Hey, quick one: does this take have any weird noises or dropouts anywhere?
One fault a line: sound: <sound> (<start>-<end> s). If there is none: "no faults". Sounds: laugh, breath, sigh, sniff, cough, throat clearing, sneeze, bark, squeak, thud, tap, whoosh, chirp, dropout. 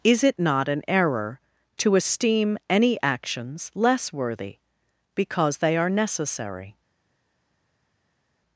no faults